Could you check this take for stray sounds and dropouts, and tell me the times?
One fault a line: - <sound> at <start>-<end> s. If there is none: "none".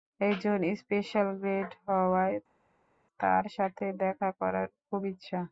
none